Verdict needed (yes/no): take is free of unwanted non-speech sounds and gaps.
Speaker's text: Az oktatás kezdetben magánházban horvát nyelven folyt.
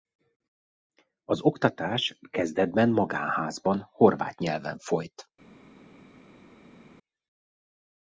yes